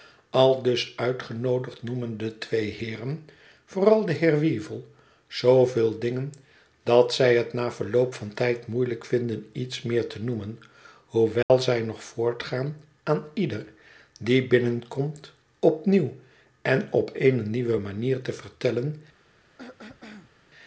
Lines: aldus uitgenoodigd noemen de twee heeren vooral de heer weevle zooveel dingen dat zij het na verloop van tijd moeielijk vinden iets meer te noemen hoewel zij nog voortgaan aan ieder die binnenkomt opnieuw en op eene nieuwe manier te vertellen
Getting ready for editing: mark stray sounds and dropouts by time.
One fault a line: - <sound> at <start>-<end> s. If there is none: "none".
- dropout at 11.4-11.5 s
- throat clearing at 19.6-20.3 s